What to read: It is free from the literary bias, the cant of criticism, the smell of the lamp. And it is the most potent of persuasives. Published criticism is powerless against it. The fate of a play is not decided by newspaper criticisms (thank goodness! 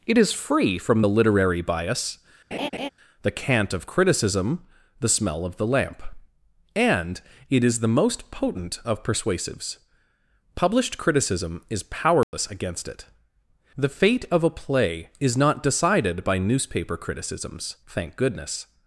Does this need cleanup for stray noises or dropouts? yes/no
yes